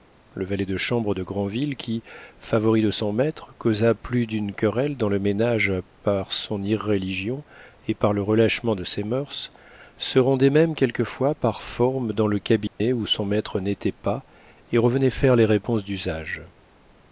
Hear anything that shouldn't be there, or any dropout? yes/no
yes